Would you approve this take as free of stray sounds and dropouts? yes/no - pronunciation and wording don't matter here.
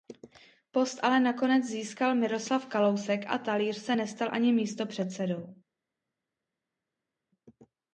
yes